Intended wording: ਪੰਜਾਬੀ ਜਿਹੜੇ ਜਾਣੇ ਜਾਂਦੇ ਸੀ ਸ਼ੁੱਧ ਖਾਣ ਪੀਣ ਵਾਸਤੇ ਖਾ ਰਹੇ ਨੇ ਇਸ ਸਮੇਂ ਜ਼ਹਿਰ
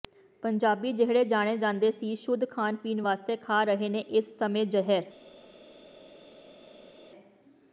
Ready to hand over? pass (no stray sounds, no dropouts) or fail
pass